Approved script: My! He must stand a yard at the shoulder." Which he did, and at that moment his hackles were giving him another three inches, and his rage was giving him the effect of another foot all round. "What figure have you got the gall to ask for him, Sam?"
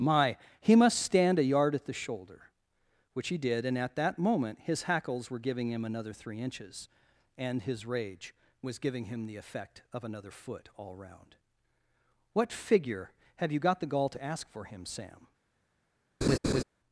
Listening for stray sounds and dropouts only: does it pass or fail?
fail